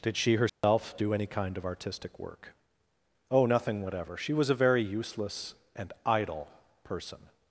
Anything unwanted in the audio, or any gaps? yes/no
yes